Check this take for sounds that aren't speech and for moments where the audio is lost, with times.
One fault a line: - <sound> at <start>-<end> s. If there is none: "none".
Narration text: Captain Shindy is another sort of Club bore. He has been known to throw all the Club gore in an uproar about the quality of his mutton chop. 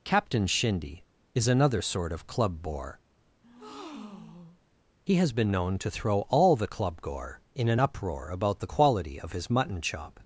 - breath at 3.4-4.6 s